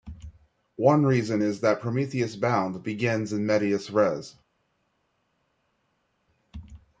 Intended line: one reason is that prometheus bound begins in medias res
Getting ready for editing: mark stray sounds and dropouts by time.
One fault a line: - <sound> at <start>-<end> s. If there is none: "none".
none